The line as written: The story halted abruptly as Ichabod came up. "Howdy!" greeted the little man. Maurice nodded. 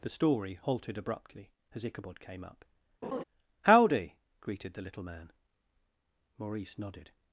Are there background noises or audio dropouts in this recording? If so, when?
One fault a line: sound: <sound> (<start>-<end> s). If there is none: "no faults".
sound: laugh (3.0-3.2 s)